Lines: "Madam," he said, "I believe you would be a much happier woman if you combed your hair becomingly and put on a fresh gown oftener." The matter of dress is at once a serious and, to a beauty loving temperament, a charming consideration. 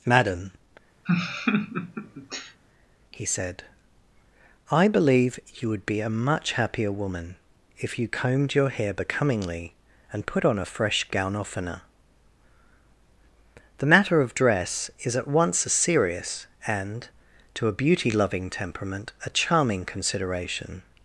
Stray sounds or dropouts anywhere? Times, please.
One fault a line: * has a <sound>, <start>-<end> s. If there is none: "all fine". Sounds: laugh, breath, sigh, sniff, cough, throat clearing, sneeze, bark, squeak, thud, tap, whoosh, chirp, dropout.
* has a laugh, 1.1-2.6 s